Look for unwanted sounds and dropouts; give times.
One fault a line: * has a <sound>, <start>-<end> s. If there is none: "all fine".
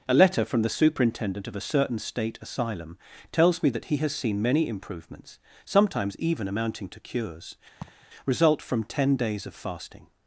* has a laugh, 7.8-8.1 s